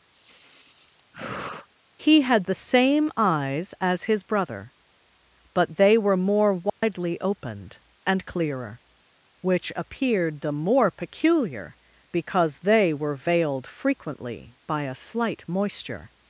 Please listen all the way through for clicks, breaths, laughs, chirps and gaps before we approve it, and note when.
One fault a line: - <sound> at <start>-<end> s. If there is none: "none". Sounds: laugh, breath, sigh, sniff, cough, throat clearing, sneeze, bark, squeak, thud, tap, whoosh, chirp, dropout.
- sigh at 0.1-1.7 s
- dropout at 6.7-6.8 s